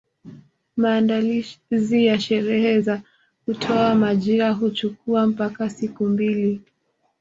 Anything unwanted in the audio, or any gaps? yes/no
no